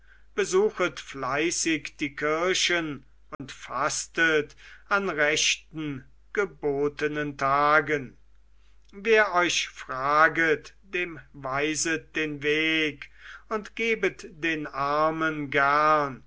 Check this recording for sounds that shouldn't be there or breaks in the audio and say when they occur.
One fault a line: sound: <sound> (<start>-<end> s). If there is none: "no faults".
sound: dropout (3.3-3.4 s)